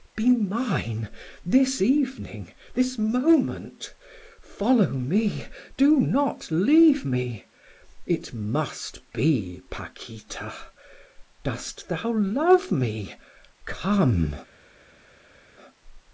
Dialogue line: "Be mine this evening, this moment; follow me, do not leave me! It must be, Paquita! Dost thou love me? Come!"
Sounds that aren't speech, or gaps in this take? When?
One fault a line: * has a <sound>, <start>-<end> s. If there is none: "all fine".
all fine